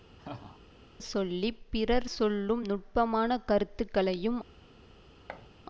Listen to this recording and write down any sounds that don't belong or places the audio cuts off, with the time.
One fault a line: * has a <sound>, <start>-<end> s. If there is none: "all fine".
* has a laugh, 0.2-0.6 s
* has a thud, 5.3-5.5 s